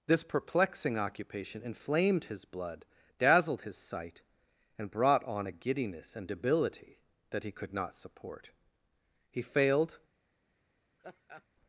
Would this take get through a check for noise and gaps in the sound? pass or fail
fail